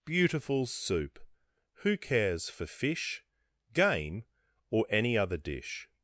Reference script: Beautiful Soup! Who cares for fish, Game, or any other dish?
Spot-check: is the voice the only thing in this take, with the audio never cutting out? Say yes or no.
yes